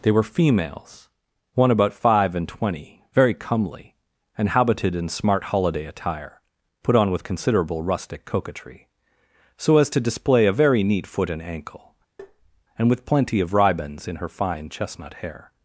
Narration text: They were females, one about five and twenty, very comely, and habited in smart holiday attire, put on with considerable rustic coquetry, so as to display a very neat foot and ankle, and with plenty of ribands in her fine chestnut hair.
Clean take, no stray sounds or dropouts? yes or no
no